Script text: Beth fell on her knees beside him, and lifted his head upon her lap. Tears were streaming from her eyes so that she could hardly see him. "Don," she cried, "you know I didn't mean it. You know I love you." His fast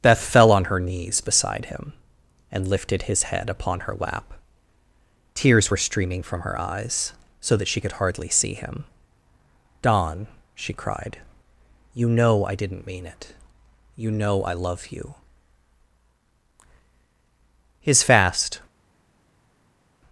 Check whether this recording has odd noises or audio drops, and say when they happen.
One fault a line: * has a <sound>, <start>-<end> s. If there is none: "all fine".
all fine